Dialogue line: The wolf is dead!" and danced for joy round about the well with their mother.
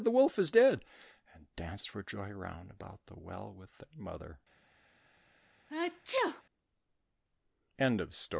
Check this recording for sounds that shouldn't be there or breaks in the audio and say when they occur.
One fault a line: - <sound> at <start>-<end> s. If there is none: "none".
- sneeze at 5.7-6.4 s